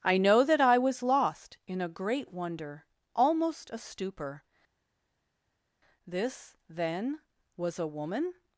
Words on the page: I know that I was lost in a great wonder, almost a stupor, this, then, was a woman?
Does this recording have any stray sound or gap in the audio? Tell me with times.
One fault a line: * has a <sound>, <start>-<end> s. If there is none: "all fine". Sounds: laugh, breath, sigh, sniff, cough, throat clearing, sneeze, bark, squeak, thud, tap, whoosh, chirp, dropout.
all fine